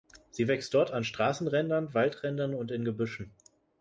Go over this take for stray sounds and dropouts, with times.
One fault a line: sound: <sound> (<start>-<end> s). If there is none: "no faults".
no faults